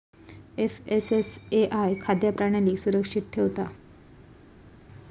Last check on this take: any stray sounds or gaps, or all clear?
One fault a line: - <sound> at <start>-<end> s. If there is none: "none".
none